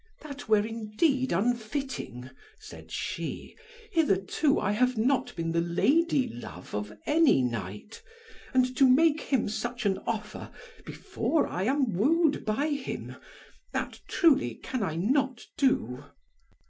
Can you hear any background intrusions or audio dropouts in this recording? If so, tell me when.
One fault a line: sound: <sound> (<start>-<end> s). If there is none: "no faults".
no faults